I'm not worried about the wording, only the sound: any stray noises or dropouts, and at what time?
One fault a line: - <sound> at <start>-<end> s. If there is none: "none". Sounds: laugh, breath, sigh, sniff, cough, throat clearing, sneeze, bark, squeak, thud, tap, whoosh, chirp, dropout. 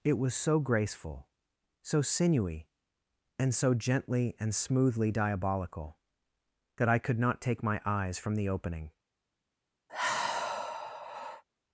- sigh at 9.9-11.4 s